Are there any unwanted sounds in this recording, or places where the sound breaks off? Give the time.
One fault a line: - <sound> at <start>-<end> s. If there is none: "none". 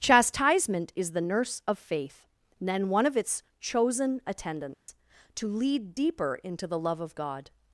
- dropout at 4.7-4.9 s